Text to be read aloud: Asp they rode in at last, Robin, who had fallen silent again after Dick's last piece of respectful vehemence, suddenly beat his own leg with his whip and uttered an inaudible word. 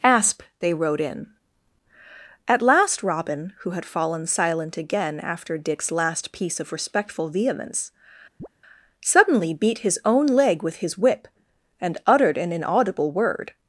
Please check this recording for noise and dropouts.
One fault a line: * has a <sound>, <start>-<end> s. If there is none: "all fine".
* has a chirp, 8.4-8.5 s